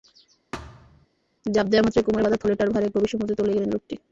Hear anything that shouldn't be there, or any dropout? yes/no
yes